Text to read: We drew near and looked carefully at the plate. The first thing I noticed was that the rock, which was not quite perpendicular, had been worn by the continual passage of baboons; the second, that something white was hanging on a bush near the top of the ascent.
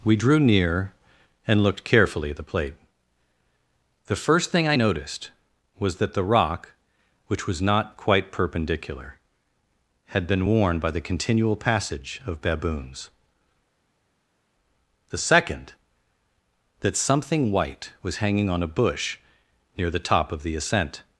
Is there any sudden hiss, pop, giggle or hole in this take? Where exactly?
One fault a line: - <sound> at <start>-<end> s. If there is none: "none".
none